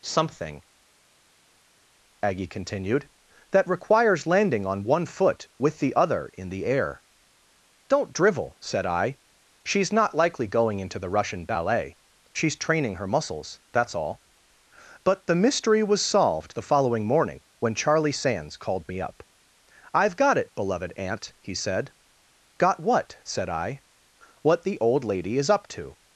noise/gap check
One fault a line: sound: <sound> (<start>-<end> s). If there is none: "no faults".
no faults